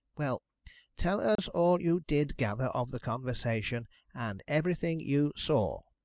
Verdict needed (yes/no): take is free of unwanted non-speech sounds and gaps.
no